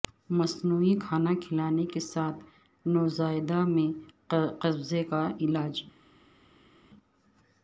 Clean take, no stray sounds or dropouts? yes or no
yes